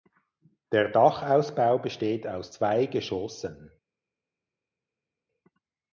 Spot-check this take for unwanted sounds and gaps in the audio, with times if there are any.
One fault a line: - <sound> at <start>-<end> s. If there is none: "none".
none